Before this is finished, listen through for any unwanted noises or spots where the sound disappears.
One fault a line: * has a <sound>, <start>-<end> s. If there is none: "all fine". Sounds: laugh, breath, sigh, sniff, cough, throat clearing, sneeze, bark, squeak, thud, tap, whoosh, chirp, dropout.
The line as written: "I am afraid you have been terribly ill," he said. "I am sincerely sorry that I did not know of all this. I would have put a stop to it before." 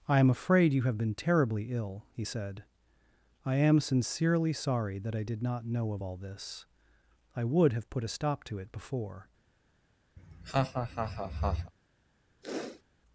* has a laugh, 10.2-11.7 s
* has a sniff, 12.4-12.8 s